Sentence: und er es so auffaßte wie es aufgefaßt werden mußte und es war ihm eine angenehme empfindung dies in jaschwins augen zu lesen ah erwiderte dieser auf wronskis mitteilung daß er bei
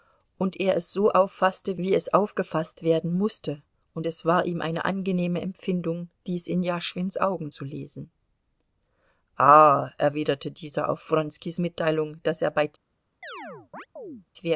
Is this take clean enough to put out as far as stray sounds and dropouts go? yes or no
no